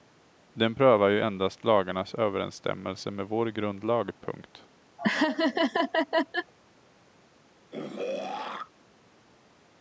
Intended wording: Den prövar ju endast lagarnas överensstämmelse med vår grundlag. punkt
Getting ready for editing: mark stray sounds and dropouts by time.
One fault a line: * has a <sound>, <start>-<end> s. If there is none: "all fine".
* has a laugh, 5.0-6.5 s
* has a throat clearing, 7.7-8.7 s